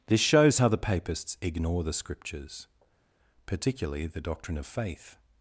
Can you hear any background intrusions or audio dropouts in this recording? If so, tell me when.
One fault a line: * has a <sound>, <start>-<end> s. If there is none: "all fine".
all fine